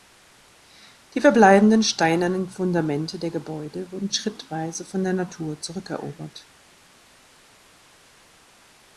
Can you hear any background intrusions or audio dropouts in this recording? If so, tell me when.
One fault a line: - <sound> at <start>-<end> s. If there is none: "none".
none